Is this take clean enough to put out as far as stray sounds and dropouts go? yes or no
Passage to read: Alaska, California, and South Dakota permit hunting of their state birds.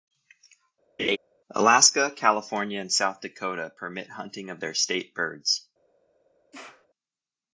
no